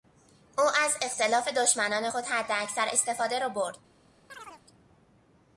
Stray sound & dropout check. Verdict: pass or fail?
fail